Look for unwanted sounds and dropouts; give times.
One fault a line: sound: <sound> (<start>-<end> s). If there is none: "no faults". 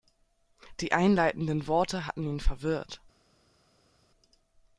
no faults